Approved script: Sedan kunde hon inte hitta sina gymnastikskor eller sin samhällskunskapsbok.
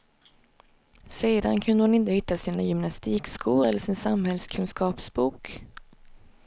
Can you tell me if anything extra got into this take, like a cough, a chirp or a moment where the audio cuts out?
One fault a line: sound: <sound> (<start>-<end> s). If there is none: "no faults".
no faults